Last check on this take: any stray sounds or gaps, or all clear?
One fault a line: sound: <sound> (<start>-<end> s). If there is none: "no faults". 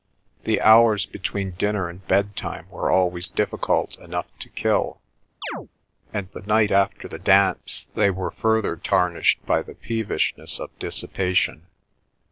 sound: chirp (5.4-5.7 s)